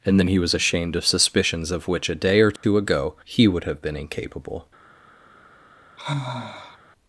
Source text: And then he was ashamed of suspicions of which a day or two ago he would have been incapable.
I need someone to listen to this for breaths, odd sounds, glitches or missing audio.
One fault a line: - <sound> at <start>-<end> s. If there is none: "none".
- dropout at 2.6-2.6 s
- sigh at 6.0-6.8 s